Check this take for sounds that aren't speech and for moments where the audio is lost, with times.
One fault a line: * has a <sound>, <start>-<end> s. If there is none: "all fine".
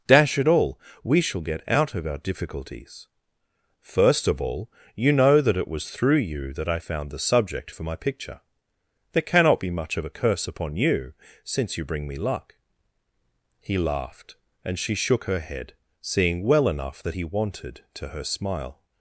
all fine